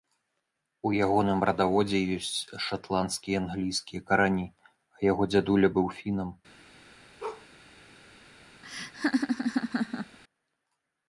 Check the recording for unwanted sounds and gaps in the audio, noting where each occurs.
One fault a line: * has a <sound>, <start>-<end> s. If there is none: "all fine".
* has a bark, 7.2-7.5 s
* has a laugh, 8.6-10.2 s